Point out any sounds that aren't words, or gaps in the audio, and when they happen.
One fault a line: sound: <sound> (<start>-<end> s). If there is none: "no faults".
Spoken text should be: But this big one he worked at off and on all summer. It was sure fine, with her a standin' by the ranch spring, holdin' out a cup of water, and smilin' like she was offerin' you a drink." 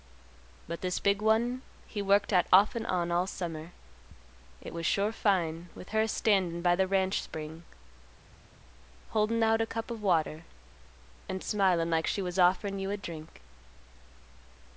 no faults